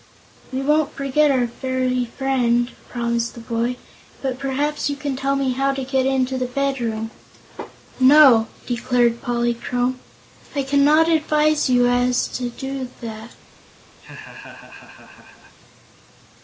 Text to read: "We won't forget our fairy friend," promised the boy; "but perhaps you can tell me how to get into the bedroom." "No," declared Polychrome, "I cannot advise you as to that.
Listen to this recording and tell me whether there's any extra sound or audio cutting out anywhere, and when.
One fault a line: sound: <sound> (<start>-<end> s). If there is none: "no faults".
sound: laugh (14.0-15.5 s)